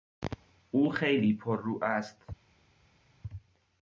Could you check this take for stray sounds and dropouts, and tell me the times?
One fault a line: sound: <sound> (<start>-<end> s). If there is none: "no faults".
no faults